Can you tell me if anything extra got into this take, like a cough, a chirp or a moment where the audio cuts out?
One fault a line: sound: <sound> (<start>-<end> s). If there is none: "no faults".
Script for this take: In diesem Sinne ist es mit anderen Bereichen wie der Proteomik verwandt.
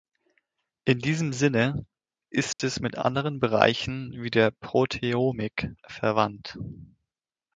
sound: dropout (2.5-2.6 s)